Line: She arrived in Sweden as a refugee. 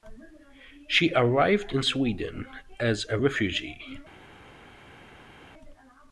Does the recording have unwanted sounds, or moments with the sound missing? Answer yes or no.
no